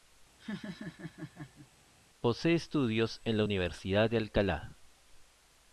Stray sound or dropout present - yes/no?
yes